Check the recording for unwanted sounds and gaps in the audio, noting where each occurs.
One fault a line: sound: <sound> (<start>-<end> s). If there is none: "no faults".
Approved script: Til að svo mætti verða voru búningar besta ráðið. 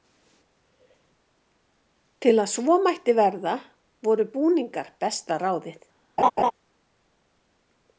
sound: laugh (6.2-6.5 s)